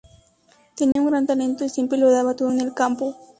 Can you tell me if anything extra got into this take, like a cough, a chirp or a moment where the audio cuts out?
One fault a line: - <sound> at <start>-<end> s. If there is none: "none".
- dropout at 0.9-1.0 s